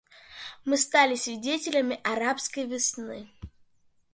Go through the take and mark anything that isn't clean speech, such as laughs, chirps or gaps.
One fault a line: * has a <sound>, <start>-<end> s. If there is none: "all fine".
all fine